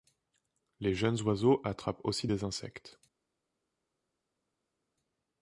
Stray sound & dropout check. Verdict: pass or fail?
pass